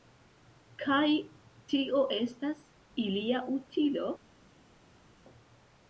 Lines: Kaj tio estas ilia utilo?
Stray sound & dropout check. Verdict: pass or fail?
pass